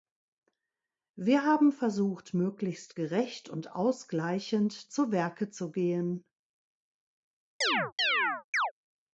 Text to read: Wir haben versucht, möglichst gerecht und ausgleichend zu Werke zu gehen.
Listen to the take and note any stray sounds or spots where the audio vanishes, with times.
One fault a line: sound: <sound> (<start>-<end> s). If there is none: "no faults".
sound: chirp (7.6-8.7 s)